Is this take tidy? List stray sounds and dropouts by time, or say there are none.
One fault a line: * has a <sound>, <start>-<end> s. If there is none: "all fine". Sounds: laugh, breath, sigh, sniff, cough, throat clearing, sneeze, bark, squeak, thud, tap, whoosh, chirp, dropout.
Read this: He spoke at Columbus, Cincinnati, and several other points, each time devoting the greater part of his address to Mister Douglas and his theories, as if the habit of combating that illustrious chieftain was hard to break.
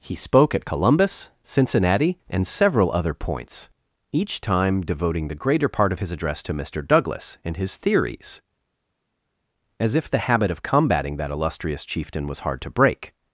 all fine